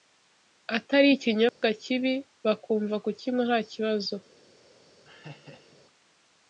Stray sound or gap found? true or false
true